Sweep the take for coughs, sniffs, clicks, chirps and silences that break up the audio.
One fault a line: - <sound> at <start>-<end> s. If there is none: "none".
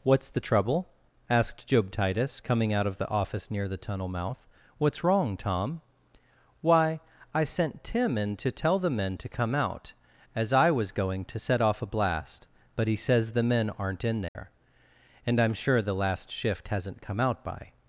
- dropout at 14.3-14.4 s